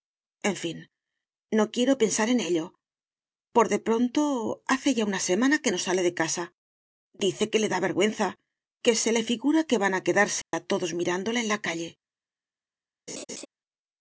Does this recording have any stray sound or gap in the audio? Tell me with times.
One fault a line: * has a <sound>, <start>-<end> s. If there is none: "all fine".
* has a dropout, 10.4-10.5 s
* has a laugh, 13.1-13.5 s